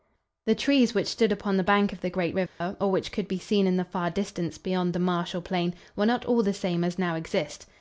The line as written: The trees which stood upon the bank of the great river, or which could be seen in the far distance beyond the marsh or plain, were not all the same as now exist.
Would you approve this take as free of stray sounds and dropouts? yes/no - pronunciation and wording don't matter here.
no